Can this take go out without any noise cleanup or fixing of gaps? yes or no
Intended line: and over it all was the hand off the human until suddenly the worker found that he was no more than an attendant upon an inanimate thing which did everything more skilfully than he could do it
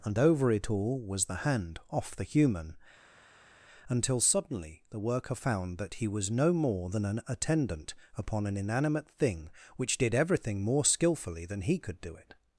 yes